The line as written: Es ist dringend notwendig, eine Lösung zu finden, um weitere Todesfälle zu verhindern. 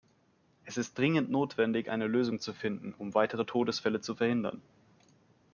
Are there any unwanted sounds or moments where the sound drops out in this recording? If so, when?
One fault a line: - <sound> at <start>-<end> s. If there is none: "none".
none